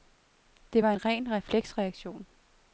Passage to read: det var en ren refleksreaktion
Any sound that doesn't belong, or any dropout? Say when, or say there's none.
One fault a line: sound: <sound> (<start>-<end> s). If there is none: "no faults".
no faults